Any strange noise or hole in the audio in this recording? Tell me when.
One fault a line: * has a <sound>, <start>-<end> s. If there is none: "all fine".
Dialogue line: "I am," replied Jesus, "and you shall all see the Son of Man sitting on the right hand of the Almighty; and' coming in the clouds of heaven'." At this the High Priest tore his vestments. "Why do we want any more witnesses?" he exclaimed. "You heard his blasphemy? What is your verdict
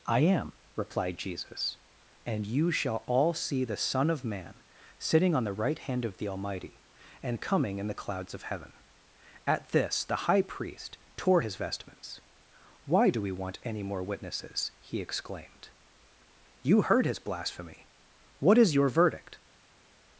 all fine